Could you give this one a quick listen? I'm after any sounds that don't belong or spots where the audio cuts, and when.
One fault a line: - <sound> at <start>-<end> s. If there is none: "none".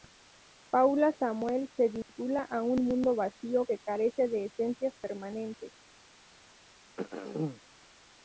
- dropout at 2.0-2.1 s
- throat clearing at 7.0-7.6 s